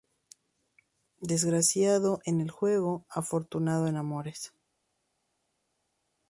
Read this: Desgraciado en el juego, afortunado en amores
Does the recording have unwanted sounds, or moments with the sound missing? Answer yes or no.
no